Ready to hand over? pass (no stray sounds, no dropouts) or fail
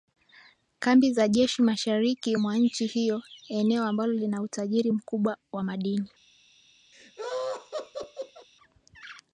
fail